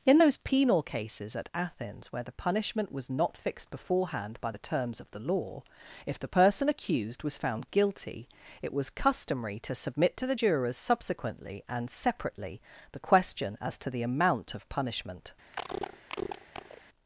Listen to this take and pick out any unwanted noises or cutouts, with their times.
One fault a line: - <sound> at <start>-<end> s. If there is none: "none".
- cough at 15.5-16.8 s